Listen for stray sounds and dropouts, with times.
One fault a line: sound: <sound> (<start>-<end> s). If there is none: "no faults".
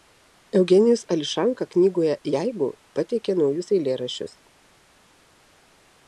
no faults